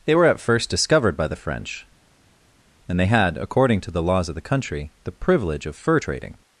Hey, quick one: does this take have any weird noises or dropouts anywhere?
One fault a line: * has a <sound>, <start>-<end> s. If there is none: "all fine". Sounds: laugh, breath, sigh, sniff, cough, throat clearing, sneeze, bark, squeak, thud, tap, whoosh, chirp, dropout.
all fine